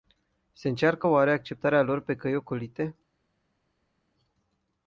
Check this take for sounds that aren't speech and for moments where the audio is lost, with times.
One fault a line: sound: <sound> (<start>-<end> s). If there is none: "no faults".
no faults